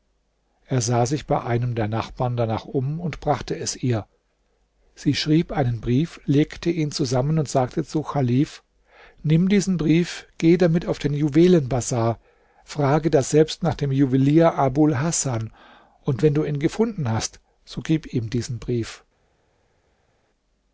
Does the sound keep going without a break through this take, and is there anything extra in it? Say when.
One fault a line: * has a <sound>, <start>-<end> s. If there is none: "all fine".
all fine